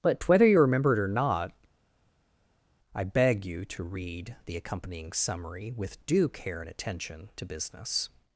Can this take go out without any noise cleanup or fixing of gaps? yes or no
yes